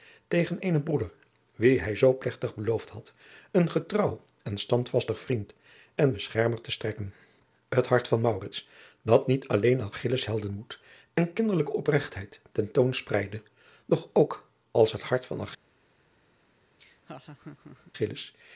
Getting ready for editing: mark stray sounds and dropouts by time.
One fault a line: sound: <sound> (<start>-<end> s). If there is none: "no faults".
sound: laugh (16.8-17.9 s)